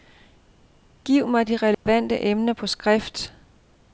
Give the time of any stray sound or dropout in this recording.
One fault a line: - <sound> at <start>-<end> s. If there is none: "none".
- dropout at 1.7-1.9 s